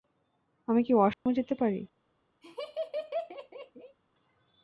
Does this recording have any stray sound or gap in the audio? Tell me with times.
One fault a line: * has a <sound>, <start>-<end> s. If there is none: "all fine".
* has a dropout, 1.1-1.3 s
* has a laugh, 2.4-4.0 s